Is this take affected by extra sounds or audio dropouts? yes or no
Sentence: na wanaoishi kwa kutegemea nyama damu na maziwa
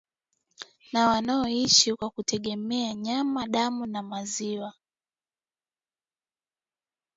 no